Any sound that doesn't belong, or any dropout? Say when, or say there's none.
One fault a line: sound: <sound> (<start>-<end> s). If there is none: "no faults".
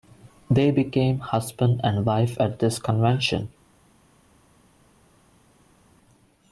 no faults